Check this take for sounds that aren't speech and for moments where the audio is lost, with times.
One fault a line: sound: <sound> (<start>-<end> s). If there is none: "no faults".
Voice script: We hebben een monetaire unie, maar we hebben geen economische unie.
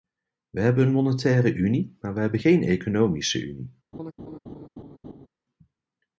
sound: laugh (3.9-5.3 s)